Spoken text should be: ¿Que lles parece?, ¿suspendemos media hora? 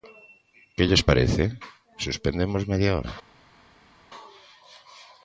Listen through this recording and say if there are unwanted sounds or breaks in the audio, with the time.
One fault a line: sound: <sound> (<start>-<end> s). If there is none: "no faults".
no faults